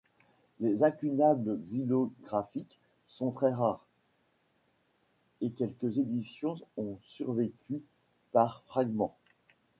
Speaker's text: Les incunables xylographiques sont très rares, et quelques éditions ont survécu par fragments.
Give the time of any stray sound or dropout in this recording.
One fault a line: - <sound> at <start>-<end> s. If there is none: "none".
none